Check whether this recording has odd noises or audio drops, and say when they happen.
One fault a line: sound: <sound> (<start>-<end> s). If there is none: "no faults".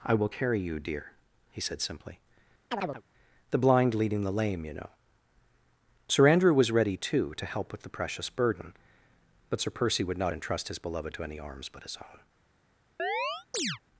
sound: chirp (2.7-3.0 s)
sound: chirp (13.0-13.8 s)